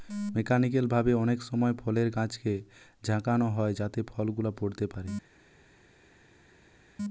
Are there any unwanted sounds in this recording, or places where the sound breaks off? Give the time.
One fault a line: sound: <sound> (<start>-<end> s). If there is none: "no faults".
no faults